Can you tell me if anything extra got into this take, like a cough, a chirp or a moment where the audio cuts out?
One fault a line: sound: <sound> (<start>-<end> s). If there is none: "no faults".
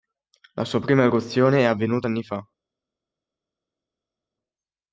no faults